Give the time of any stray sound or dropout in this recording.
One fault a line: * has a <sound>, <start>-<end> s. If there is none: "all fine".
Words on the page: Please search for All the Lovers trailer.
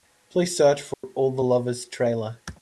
* has a dropout, 0.9-1.0 s